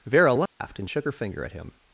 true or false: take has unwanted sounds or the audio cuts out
true